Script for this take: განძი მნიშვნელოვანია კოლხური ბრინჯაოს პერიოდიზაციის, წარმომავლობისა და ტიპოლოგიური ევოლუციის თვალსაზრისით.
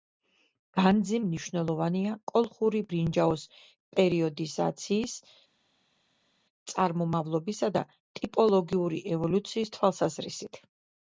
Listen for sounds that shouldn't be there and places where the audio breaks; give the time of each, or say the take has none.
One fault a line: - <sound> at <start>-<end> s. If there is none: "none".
none